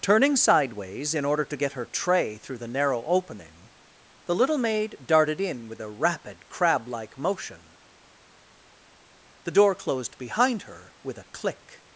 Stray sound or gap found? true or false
false